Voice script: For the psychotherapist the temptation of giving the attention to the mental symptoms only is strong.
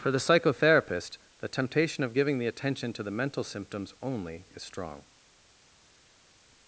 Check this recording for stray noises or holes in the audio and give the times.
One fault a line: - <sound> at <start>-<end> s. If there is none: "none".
none